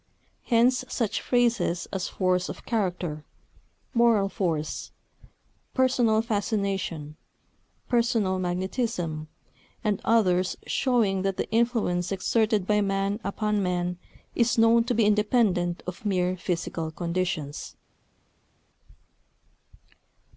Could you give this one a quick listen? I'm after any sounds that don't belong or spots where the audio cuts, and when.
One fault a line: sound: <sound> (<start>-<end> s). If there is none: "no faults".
no faults